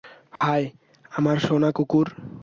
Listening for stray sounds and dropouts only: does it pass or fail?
fail